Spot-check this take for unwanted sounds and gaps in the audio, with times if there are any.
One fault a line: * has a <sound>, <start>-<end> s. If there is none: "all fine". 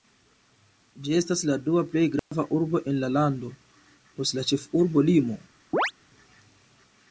* has a dropout, 2.2-2.3 s
* has a chirp, 5.7-5.9 s